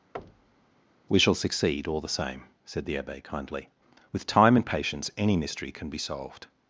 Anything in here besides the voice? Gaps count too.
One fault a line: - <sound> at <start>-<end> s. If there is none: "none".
- thud at 0.1-0.7 s